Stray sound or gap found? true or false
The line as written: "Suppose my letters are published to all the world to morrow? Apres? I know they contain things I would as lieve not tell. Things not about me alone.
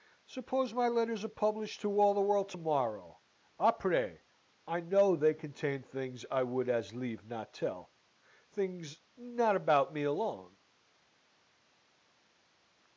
false